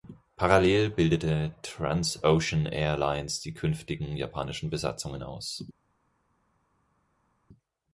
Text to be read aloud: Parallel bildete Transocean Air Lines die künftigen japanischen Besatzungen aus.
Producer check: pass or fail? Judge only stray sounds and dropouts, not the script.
pass